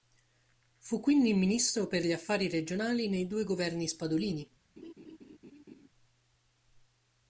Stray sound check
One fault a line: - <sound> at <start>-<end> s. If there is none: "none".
- laugh at 4.8-5.9 s